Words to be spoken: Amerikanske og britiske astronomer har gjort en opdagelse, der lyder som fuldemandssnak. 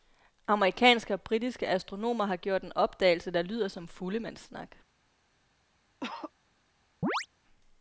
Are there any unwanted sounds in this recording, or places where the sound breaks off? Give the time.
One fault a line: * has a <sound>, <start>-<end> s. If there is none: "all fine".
* has a cough, 6.0-6.3 s
* has a chirp, 7.0-7.3 s